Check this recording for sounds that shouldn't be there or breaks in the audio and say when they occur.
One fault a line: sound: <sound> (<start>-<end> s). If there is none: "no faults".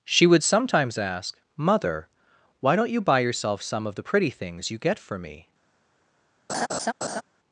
sound: laugh (6.5-7.2 s)